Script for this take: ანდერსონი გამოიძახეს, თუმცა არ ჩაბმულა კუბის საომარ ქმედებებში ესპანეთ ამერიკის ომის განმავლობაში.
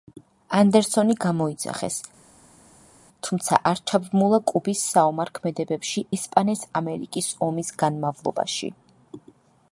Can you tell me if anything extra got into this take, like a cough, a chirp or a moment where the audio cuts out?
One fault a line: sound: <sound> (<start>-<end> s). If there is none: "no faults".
no faults